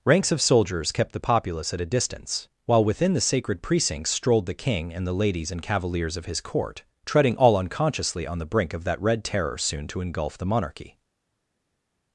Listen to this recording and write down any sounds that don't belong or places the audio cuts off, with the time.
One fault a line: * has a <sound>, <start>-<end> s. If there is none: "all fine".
all fine